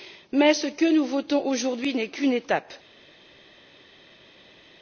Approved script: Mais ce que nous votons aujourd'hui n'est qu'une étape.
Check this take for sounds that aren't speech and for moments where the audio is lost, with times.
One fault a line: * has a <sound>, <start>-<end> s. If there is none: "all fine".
all fine